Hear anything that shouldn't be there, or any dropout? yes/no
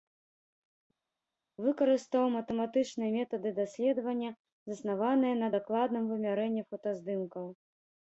no